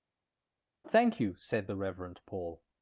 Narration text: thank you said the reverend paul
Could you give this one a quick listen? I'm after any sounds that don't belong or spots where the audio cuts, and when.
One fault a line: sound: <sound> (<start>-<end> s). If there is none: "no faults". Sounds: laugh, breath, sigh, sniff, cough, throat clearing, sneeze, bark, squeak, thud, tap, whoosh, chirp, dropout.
no faults